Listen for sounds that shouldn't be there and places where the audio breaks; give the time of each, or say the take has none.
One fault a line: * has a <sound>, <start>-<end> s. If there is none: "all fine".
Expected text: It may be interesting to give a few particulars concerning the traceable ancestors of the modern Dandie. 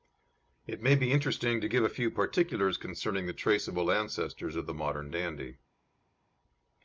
all fine